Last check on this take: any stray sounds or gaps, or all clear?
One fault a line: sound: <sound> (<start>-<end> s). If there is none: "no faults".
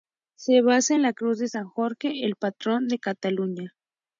no faults